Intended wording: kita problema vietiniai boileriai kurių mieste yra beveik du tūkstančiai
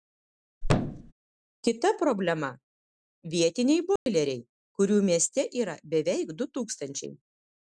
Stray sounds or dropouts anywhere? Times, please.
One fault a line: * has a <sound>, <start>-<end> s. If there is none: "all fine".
* has a thud, 0.6-1.1 s
* has a dropout, 4.0-4.1 s